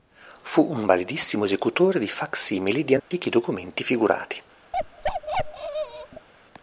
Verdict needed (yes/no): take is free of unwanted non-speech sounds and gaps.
no